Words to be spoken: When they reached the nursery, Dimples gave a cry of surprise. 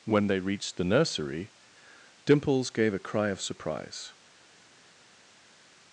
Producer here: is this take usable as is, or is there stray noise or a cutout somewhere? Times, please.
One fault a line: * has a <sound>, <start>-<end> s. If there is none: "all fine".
all fine